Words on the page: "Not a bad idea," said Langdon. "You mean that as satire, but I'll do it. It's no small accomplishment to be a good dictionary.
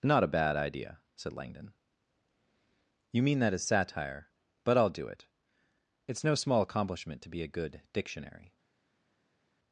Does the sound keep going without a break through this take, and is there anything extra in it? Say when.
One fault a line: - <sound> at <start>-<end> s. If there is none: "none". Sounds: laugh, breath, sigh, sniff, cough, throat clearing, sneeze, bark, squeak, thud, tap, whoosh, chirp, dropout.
none